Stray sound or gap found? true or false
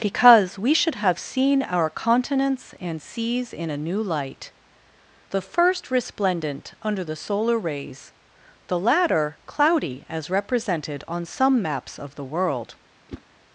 true